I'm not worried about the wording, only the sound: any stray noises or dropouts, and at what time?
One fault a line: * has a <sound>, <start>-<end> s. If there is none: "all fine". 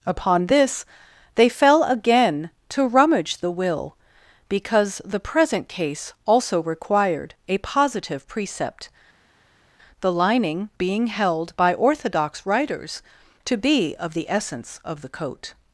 all fine